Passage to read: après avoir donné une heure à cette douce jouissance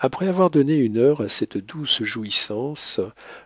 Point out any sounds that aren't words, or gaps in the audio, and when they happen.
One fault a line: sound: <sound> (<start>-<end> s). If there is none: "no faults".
no faults